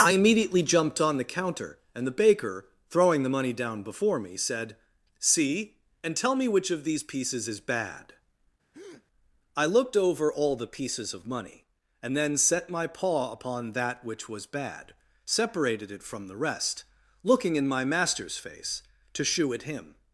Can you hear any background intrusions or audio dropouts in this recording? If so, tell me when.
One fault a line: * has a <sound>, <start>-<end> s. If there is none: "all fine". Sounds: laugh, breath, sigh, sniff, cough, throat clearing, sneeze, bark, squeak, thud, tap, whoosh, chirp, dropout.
* has a breath, 8.7-9.1 s